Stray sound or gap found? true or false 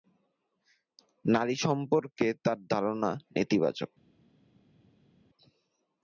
false